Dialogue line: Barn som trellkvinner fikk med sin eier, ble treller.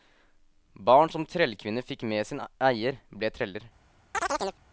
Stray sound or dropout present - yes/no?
yes